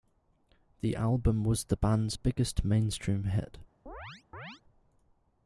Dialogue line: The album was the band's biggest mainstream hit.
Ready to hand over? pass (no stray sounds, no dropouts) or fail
fail